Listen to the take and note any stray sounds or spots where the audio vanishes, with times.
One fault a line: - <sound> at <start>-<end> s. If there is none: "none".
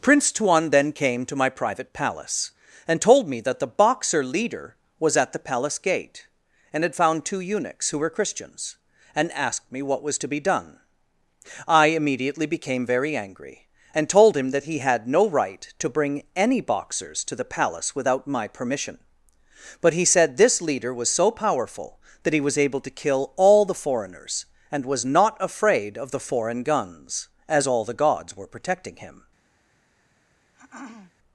- throat clearing at 30.5-31.1 s